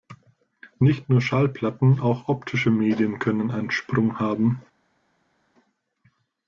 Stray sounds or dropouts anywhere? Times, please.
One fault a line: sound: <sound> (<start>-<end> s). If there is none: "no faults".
no faults